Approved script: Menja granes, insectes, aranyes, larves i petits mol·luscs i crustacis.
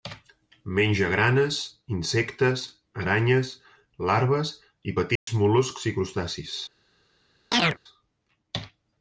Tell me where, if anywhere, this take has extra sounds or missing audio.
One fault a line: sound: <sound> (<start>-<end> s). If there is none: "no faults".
sound: dropout (5.2-5.3 s)
sound: chirp (7.5-7.8 s)